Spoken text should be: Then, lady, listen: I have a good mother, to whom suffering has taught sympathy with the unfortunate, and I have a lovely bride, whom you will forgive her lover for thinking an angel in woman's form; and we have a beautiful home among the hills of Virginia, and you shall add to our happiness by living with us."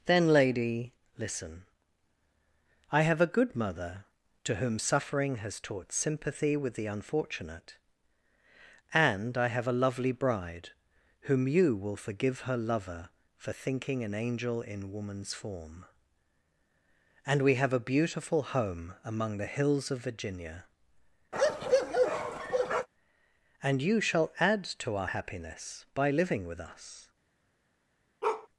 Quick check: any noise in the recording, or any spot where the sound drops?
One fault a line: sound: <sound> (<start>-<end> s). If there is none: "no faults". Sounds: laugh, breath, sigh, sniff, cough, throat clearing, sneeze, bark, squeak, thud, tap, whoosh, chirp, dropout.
sound: bark (21.3-22.9 s)
sound: bark (28.2-28.5 s)